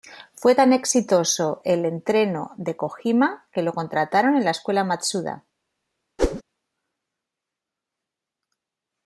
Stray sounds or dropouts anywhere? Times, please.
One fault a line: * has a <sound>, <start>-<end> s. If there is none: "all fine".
* has a whoosh, 6.2-6.4 s